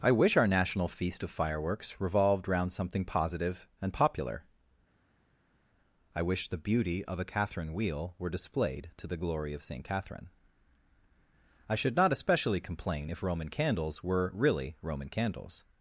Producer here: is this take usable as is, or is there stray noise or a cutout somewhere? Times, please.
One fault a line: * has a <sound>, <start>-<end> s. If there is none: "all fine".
all fine